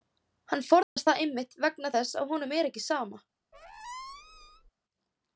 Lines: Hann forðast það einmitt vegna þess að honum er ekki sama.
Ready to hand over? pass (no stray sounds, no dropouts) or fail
fail